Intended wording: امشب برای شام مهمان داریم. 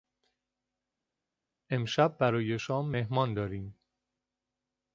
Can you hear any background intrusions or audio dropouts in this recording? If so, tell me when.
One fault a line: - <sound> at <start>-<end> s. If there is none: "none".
none